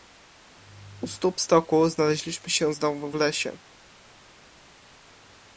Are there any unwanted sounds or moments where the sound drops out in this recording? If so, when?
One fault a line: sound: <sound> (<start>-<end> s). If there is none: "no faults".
no faults